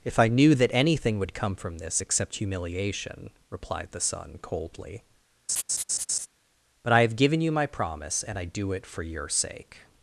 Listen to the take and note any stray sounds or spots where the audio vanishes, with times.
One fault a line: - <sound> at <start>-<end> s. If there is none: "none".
- laugh at 5.5-6.3 s